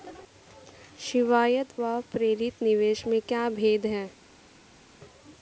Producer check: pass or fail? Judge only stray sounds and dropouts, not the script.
pass